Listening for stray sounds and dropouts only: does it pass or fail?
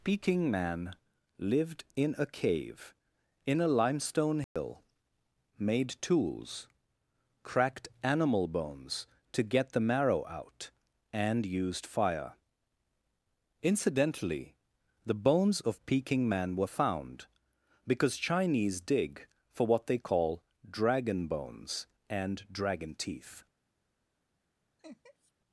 fail